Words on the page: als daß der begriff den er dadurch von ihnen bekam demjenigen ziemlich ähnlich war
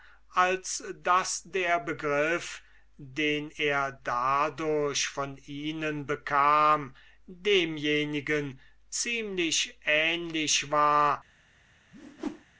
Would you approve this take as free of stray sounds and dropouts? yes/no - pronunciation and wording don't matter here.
no